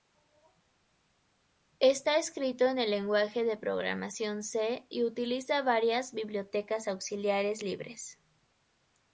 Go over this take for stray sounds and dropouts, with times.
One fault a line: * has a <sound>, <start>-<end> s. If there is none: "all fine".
all fine